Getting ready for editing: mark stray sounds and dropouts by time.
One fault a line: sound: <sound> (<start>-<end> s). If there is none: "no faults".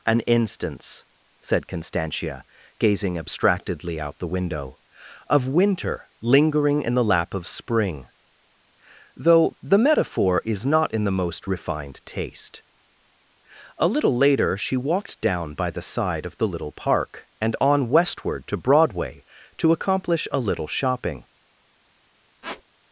sound: squeak (22.4-22.6 s)